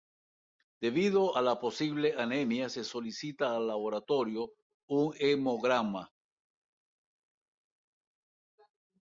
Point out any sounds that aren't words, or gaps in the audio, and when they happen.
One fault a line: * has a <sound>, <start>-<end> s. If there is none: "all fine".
all fine